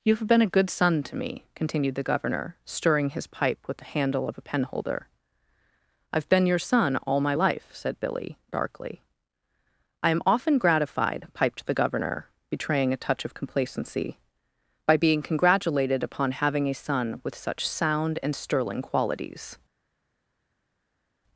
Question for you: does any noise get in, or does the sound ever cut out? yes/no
no